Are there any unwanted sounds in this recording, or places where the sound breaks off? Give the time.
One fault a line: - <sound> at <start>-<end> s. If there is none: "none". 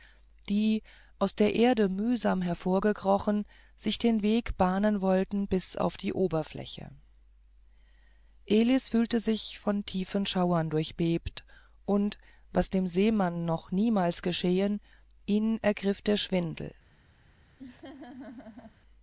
- laugh at 17.6-18.8 s